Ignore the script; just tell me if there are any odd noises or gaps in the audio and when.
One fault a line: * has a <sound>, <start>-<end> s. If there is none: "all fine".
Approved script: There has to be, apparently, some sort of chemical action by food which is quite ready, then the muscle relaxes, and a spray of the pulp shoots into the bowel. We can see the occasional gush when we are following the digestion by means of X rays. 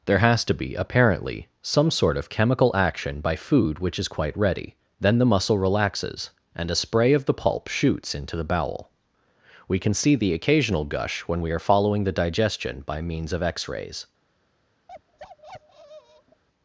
* has a bark, 14.9-16.4 s